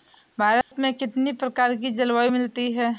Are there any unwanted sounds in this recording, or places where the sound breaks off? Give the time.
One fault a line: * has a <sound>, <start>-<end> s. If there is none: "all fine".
* has a dropout, 0.6-0.7 s